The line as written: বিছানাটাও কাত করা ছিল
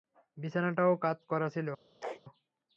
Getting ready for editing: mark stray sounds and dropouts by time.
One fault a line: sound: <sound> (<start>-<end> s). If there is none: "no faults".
sound: sneeze (2.0-2.2 s)